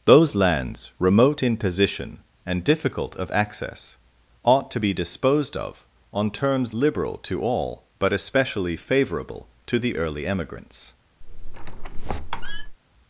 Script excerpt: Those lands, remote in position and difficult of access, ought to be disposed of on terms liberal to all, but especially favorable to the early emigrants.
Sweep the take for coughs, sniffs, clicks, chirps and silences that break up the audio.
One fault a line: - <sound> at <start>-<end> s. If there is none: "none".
- squeak at 11.2-12.8 s